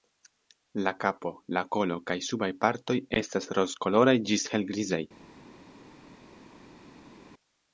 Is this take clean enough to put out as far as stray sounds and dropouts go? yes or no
yes